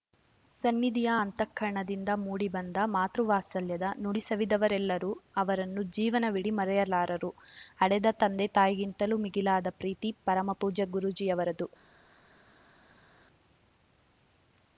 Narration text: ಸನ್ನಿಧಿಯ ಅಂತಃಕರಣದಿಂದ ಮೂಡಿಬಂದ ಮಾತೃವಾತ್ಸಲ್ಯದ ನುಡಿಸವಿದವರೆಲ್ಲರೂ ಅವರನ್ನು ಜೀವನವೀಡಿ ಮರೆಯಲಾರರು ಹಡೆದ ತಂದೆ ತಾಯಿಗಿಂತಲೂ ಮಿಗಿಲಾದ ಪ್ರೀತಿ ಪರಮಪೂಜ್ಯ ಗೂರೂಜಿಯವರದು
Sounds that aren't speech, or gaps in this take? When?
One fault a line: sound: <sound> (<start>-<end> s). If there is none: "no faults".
no faults